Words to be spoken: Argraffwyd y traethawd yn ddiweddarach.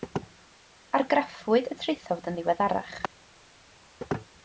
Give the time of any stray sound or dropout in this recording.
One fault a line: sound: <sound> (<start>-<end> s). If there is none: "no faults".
no faults